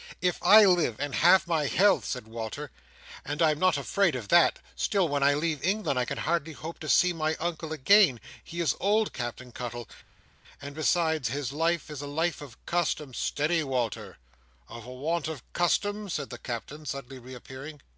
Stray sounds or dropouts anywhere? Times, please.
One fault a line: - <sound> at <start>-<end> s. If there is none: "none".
none